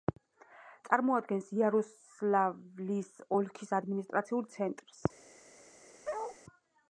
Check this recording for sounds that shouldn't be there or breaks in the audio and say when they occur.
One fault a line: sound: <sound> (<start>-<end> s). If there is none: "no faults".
sound: bark (6.0-6.4 s)